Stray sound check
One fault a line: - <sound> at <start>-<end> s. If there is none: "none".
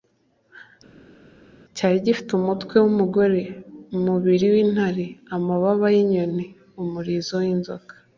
none